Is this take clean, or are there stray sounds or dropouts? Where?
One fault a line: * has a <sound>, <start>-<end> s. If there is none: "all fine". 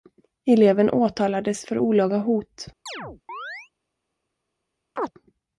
* has a chirp, 2.9-3.7 s
* has a chirp, 5.0-5.1 s